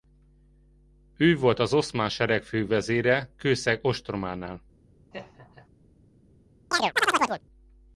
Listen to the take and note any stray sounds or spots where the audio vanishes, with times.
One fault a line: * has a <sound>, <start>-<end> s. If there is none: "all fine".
* has a laugh, 5.1-5.7 s
* has a chirp, 6.7-7.4 s